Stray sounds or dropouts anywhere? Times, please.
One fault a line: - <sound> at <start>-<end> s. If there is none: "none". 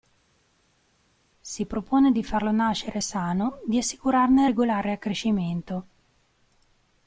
none